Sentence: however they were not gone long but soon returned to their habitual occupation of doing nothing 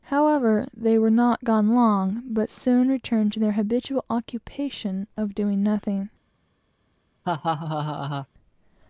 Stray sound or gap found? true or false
true